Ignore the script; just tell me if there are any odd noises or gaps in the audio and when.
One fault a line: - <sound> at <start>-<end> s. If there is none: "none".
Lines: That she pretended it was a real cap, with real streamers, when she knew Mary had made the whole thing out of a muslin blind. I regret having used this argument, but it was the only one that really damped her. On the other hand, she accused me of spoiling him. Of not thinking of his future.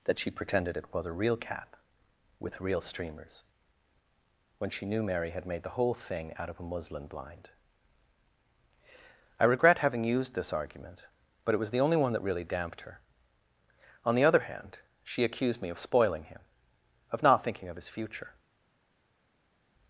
none